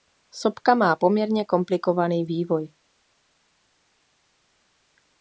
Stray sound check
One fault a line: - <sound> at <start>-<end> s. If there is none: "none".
none